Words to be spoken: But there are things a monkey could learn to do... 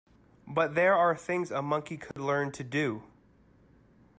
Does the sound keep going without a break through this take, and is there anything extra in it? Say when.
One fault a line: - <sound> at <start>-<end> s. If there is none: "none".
- dropout at 2.1-2.2 s